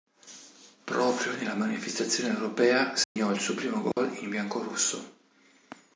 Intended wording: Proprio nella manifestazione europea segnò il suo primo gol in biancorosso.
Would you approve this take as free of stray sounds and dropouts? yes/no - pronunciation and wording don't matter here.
no